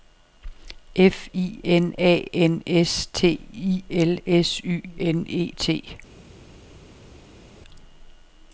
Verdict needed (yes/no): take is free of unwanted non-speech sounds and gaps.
yes